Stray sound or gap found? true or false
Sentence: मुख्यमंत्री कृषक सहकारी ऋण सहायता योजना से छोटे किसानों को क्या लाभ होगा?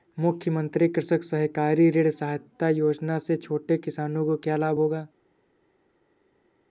false